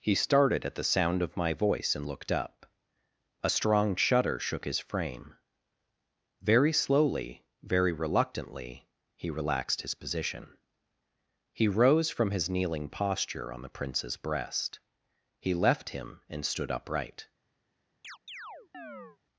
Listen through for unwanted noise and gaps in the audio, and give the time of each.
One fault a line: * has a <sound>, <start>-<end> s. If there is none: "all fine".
* has a chirp, 18.0-19.2 s